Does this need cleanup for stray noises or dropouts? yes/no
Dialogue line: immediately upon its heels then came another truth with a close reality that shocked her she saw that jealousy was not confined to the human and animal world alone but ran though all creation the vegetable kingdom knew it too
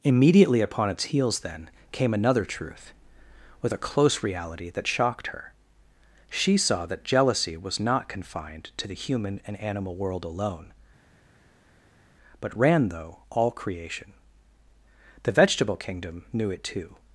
no